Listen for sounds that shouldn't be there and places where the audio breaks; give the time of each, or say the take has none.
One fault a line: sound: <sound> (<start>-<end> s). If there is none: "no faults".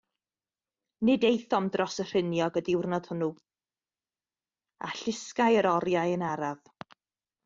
no faults